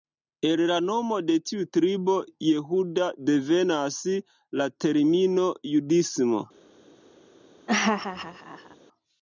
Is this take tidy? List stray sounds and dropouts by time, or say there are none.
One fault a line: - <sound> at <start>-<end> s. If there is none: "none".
- laugh at 7.7-8.8 s